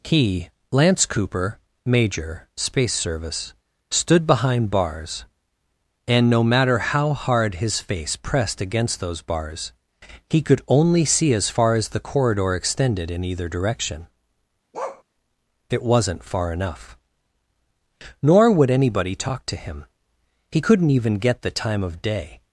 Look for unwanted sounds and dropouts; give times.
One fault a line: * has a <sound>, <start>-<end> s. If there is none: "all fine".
* has a bark, 14.7-15.0 s